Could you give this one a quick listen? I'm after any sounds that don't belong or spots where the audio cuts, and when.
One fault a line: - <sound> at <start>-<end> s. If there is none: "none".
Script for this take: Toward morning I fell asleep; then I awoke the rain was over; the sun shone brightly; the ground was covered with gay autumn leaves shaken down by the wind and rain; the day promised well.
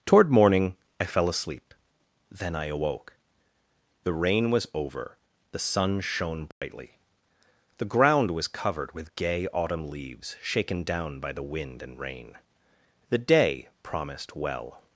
- dropout at 6.5-6.6 s